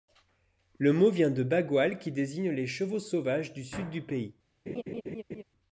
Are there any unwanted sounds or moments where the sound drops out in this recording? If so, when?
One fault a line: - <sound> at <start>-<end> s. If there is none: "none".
- laugh at 4.7-5.4 s